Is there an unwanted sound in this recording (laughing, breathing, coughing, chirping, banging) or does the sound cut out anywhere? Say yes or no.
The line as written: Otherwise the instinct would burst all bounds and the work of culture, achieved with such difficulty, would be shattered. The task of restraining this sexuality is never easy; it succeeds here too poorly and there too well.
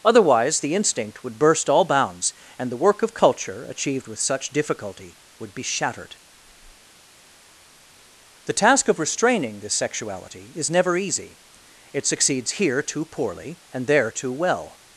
no